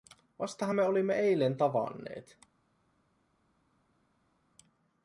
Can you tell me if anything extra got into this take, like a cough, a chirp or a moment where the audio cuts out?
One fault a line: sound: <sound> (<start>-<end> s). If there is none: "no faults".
no faults